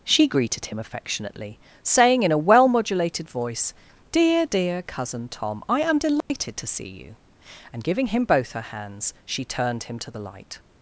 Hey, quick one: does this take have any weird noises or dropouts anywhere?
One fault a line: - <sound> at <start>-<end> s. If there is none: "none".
- dropout at 6.2-6.3 s